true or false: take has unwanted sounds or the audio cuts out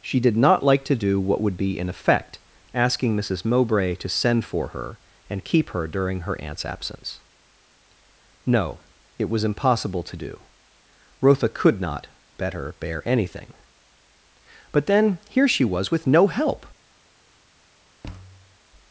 true